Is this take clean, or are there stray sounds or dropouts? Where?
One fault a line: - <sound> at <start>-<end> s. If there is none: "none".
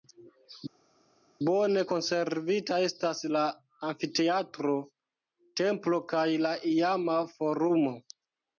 none